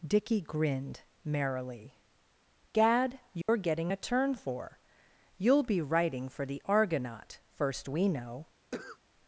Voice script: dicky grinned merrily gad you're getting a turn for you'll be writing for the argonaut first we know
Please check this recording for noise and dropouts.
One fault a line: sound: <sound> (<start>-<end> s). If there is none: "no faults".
sound: dropout (3.4-3.5 s)
sound: cough (8.7-9.0 s)